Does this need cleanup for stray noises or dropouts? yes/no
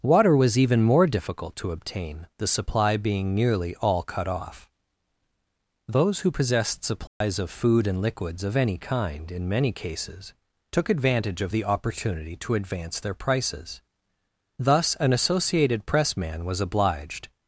yes